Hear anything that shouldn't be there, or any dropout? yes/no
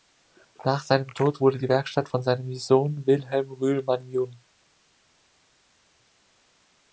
no